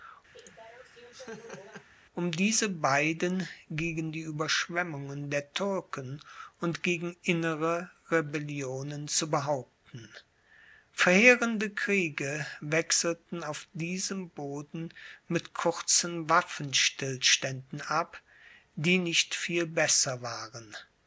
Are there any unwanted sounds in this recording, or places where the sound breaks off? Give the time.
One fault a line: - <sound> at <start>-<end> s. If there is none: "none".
- laugh at 0.3-1.9 s